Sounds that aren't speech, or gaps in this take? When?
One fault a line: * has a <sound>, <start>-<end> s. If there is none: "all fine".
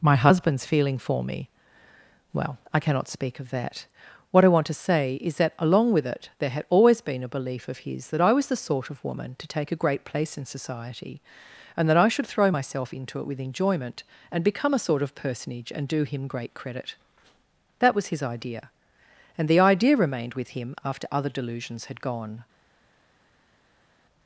all fine